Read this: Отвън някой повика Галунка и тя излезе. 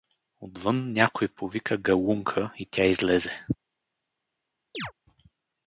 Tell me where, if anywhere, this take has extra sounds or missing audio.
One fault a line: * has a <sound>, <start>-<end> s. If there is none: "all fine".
* has a chirp, 4.7-4.9 s